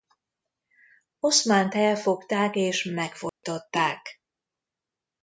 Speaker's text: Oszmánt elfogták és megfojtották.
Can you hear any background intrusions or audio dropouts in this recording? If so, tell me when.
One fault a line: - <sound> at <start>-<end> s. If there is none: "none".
- dropout at 3.3-3.4 s